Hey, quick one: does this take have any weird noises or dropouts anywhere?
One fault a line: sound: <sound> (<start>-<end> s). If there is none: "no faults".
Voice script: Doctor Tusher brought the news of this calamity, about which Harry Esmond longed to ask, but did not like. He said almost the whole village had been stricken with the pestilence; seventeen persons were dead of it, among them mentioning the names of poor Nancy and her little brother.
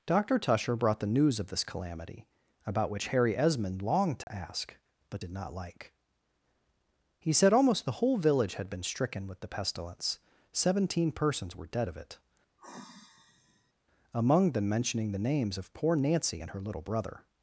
sound: dropout (4.2-4.3 s)
sound: sigh (12.6-13.7 s)